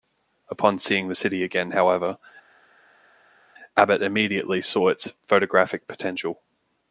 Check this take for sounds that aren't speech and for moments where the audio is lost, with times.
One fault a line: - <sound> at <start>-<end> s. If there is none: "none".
none